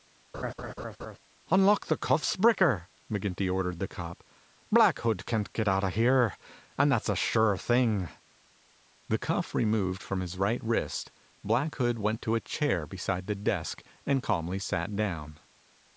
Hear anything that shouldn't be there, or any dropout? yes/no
yes